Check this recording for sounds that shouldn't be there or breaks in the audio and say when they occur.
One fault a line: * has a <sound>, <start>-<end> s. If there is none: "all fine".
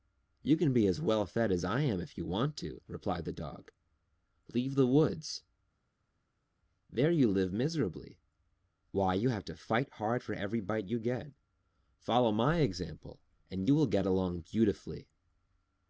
all fine